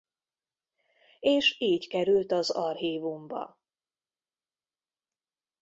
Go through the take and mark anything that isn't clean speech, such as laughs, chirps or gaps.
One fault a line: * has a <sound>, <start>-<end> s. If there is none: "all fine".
all fine